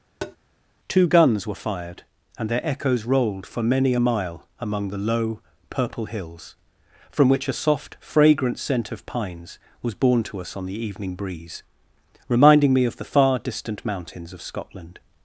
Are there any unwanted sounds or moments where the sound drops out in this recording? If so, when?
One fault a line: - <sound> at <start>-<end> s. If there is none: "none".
- tap at 0.2-0.4 s